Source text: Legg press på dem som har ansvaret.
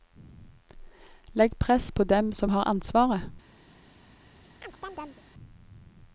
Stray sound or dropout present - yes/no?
yes